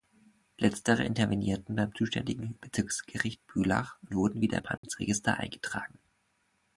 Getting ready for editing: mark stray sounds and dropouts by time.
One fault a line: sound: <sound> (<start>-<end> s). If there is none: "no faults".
sound: dropout (4.8-4.8 s)